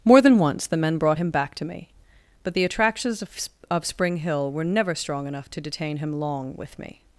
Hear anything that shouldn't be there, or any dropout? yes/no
no